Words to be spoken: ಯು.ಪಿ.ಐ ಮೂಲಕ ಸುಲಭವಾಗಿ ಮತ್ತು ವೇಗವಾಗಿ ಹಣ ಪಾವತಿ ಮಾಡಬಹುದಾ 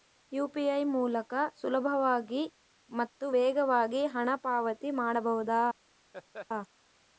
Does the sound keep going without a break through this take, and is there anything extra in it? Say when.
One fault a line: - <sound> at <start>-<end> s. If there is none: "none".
- laugh at 6.1-6.5 s